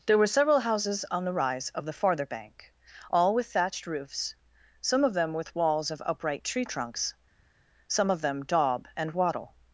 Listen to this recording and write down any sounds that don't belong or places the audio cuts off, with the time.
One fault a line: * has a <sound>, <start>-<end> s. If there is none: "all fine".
all fine